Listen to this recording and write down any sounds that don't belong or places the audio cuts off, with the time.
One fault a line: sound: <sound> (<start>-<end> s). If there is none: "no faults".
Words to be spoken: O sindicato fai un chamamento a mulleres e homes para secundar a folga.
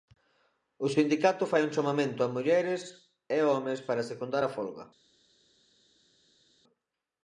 no faults